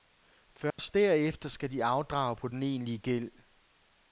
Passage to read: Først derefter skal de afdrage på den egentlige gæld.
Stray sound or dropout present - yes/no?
yes